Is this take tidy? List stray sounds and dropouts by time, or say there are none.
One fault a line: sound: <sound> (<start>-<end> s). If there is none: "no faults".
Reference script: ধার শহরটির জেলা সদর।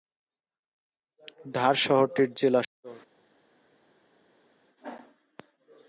no faults